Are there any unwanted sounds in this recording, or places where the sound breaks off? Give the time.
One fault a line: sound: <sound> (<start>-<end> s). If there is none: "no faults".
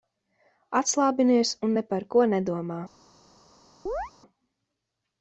sound: chirp (3.9-4.1 s)